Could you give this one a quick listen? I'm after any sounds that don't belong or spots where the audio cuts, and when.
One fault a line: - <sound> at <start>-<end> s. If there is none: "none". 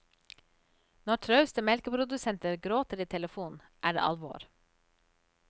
none